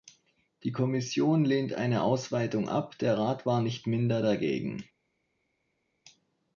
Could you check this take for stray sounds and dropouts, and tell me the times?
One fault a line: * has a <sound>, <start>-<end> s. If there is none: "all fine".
all fine